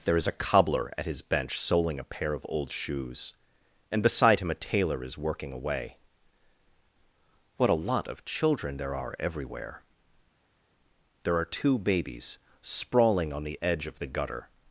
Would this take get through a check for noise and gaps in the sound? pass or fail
pass